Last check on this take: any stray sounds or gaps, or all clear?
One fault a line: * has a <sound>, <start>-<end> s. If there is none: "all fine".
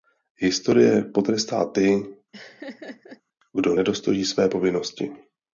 * has a laugh, 2.3-3.2 s